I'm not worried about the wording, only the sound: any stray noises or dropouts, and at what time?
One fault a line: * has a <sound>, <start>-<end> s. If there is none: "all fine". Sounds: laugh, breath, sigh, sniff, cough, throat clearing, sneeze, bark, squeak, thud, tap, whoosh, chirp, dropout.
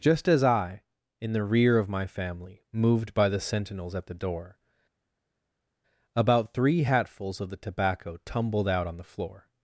all fine